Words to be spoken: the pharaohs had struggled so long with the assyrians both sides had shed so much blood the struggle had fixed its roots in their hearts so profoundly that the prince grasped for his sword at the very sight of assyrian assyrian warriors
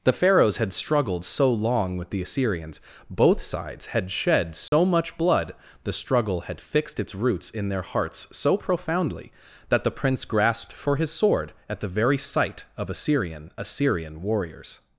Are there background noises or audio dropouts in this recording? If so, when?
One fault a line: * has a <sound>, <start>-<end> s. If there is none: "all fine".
* has a dropout, 4.7-4.7 s